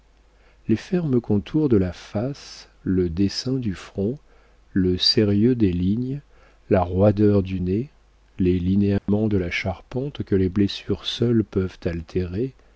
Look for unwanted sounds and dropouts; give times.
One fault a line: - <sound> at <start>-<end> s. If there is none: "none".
- dropout at 9.0-9.1 s